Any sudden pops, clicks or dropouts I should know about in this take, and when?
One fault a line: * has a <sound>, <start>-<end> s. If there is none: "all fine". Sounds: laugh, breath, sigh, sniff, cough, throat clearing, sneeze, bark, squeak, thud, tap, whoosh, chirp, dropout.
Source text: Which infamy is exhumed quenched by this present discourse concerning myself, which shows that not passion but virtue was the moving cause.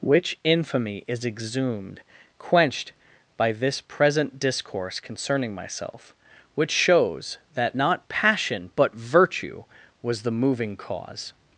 all fine